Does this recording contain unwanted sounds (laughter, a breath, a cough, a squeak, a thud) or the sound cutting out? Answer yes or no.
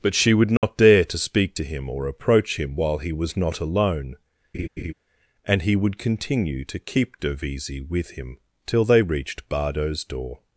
yes